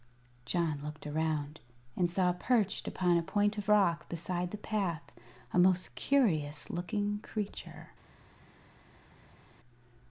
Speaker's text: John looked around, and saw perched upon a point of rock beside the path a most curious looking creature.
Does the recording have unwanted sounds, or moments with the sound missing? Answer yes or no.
no